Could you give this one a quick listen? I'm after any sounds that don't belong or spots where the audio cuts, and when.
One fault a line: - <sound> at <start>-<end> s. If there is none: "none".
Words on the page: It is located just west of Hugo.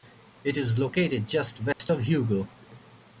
- dropout at 1.7-1.8 s